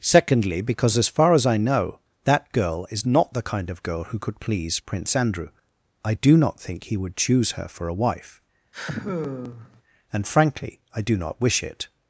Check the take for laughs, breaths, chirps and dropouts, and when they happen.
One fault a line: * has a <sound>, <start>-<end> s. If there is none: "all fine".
* has a sigh, 8.7-9.8 s